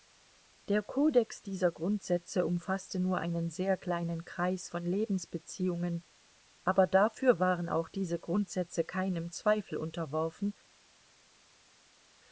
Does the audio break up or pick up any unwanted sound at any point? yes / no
no